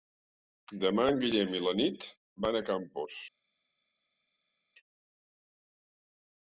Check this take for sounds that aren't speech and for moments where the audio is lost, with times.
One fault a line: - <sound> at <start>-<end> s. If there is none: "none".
none